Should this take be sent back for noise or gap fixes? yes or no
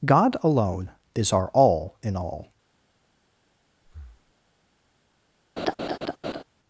yes